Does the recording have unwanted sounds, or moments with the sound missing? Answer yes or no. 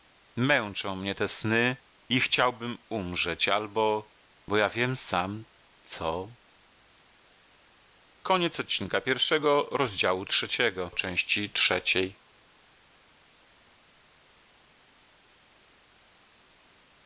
no